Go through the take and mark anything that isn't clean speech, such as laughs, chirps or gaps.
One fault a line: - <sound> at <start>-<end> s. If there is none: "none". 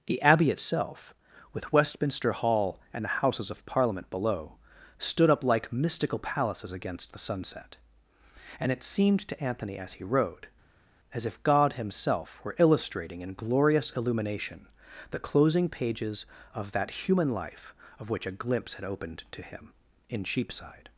none